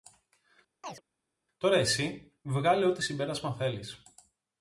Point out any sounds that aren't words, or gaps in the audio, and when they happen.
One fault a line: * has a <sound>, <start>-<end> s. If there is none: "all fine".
* has a chirp, 0.8-1.0 s